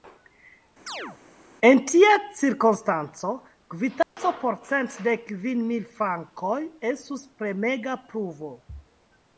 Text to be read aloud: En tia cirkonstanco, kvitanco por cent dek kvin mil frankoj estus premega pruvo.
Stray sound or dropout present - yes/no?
yes